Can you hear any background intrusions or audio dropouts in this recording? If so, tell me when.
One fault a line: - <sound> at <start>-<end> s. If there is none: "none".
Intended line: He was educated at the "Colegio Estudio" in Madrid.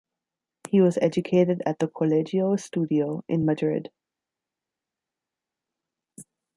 none